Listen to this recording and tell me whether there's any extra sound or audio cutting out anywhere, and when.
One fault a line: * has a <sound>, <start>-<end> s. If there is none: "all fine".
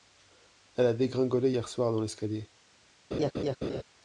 * has a laugh, 3.1-3.8 s